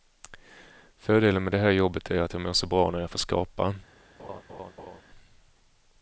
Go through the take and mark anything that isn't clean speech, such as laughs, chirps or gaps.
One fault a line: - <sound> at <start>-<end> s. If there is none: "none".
- laugh at 4.2-5.0 s